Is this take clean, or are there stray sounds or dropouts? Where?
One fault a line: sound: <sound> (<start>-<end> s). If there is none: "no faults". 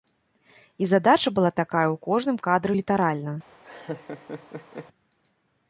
sound: laugh (3.6-4.9 s)